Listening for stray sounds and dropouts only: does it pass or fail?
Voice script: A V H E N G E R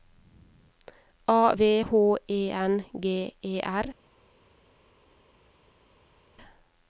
pass